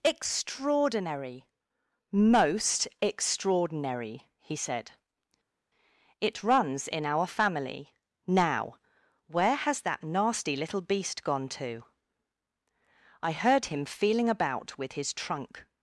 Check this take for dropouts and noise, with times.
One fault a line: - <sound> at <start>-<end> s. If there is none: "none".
none